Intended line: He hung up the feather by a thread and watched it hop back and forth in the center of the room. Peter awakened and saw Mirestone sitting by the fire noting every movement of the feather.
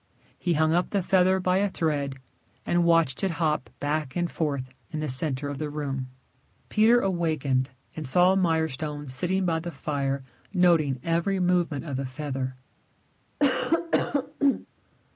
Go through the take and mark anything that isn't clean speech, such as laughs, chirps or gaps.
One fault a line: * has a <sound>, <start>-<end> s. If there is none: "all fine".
* has a cough, 13.4-14.7 s